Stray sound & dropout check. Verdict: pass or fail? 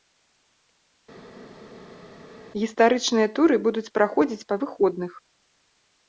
pass